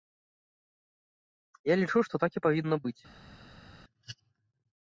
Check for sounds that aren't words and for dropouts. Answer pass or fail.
pass